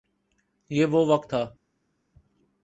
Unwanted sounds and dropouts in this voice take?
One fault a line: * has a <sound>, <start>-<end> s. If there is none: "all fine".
all fine